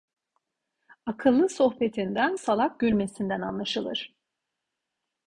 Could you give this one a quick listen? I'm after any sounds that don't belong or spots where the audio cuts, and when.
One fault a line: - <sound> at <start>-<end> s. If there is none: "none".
none